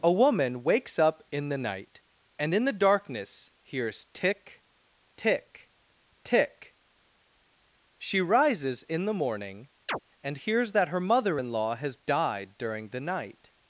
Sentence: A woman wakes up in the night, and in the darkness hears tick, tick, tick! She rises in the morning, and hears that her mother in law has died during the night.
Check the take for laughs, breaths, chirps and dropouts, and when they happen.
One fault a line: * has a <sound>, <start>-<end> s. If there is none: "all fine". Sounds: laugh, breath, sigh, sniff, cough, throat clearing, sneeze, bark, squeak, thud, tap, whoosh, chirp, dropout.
* has a chirp, 9.9-10.0 s